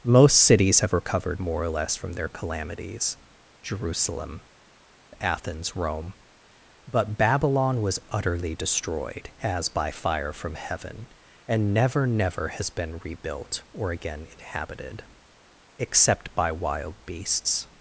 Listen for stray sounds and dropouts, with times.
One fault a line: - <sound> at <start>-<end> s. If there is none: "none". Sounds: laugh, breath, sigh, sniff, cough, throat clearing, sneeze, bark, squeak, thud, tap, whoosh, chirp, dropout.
none